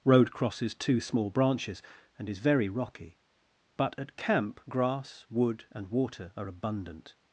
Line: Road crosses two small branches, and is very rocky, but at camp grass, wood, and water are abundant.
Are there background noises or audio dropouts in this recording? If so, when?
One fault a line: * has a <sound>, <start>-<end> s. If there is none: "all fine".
all fine